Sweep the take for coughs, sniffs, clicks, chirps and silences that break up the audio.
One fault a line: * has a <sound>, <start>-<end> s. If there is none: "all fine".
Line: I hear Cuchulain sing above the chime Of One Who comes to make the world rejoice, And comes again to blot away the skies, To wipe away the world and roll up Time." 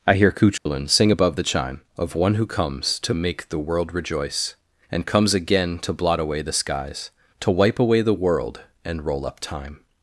* has a dropout, 0.6-0.7 s